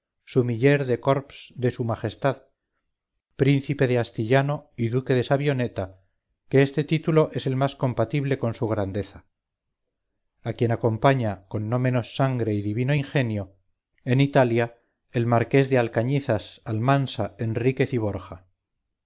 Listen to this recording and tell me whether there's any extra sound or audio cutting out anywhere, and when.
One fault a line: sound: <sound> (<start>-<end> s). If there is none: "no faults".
no faults